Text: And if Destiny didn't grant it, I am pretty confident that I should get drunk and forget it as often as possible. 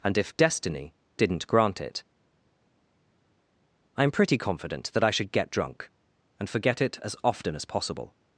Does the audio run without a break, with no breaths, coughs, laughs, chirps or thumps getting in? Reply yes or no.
yes